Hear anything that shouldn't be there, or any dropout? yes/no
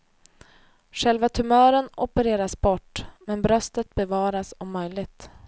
no